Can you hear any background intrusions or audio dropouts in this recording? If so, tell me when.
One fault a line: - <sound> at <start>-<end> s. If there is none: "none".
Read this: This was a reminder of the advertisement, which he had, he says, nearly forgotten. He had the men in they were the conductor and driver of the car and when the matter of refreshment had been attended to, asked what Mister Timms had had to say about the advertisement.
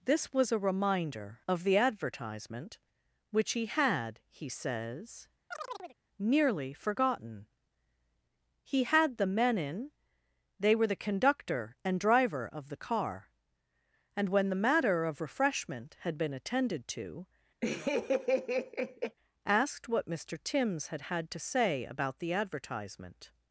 - chirp at 5.5-6.0 s
- laugh at 17.6-19.2 s